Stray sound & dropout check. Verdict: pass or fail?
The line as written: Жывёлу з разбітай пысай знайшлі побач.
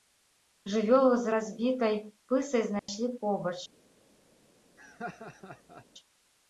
fail